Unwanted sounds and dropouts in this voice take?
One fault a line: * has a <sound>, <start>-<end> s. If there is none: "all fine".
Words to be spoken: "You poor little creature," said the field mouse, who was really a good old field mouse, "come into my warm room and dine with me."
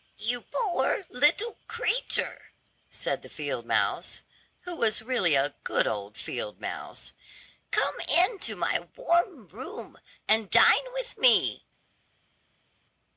all fine